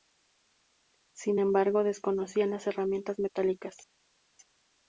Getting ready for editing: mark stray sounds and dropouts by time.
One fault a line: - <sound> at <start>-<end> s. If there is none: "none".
none